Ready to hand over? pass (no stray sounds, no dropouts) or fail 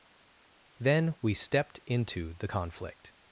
pass